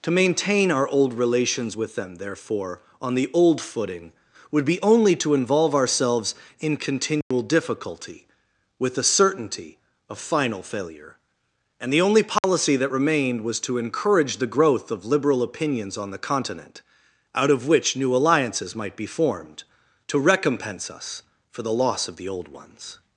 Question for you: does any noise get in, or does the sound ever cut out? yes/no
yes